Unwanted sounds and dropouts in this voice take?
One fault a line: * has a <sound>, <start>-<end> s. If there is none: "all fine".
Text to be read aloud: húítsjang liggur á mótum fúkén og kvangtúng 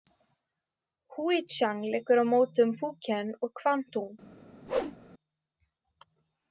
* has a whoosh, 4.7-5.0 s